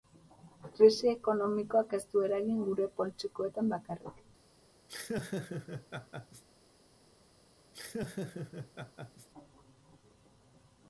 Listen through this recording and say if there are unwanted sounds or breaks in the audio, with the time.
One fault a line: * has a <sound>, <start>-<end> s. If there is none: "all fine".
* has a laugh, 4.9-6.4 s
* has a laugh, 7.7-9.3 s